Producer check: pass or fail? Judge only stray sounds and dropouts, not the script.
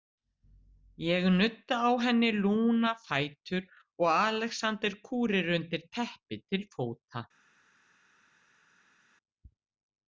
pass